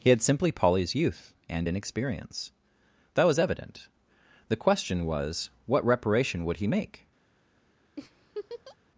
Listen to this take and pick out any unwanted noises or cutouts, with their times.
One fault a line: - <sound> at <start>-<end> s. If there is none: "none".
- laugh at 8.0-8.8 s